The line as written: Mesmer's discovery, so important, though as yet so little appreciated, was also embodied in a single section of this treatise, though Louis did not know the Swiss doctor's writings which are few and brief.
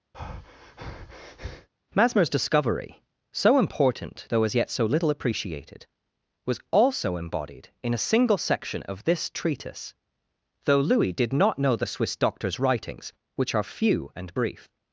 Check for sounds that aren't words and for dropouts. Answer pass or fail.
fail